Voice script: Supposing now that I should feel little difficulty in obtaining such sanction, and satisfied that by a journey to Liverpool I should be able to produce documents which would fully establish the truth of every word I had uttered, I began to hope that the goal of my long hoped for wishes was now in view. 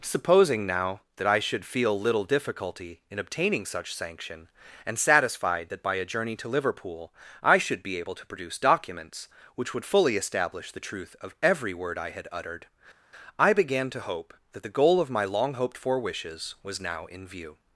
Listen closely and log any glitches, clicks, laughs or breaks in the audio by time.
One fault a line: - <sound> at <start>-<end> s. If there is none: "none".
none